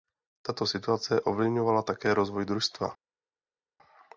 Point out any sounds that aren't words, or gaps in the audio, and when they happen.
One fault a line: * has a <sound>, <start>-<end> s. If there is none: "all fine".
all fine